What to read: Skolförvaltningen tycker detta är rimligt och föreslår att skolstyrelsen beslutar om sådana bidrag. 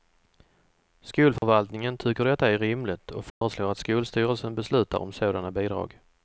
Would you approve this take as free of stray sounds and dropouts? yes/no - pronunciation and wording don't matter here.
no